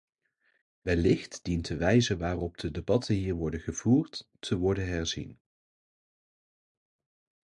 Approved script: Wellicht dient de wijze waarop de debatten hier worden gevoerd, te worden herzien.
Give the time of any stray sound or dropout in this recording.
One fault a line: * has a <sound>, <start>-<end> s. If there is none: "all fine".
all fine